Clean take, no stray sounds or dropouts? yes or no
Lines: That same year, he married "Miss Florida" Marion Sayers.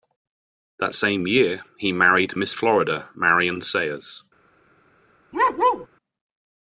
no